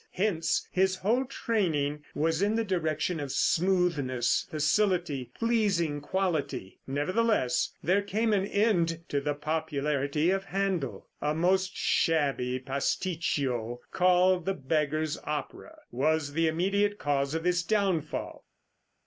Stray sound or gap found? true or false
false